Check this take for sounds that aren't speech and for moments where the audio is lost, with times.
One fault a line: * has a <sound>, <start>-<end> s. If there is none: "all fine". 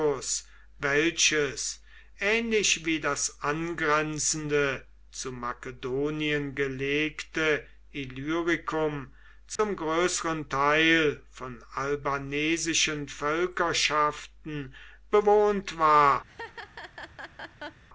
* has a dropout, 9.6-9.6 s
* has a laugh, 16.3-17.8 s